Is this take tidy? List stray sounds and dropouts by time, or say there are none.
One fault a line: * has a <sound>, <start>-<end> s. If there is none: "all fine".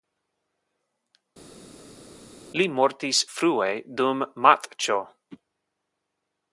all fine